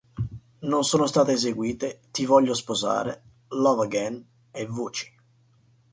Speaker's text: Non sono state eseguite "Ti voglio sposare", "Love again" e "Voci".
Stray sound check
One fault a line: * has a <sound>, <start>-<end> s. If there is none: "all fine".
all fine